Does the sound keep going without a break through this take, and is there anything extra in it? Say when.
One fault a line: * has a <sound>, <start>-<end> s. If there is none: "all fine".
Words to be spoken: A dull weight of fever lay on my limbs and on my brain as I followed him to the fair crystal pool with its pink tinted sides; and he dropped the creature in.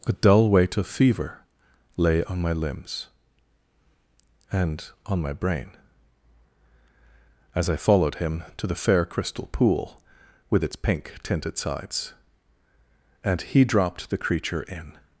all fine